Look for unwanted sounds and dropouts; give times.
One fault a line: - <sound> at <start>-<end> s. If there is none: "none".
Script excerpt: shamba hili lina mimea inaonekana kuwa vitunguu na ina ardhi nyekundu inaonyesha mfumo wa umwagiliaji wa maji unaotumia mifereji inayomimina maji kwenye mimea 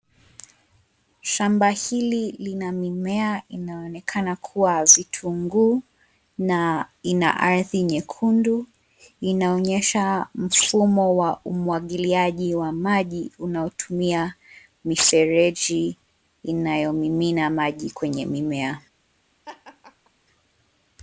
- laugh at 19.5-20.1 s